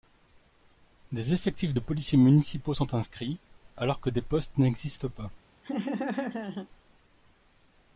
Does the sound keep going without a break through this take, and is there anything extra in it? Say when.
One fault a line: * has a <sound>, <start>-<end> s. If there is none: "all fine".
* has a laugh, 5.6-6.7 s